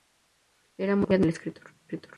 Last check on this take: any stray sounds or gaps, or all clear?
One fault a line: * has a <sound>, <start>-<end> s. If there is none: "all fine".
all fine